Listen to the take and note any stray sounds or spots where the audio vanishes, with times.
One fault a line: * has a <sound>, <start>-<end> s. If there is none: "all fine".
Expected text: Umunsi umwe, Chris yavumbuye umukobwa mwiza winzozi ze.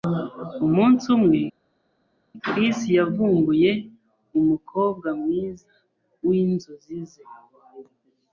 all fine